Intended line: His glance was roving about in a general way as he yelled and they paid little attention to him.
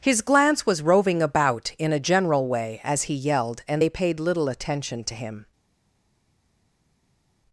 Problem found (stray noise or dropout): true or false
false